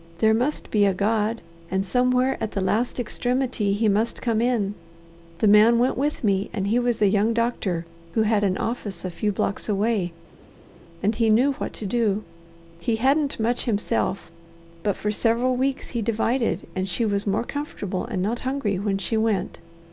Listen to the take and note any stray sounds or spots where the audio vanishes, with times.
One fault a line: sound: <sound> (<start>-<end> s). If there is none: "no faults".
no faults